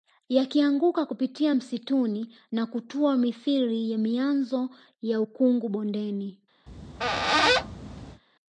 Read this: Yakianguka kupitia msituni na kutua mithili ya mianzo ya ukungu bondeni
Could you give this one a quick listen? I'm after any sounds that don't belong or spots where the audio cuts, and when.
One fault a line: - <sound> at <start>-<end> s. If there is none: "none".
- squeak at 6.7-8.2 s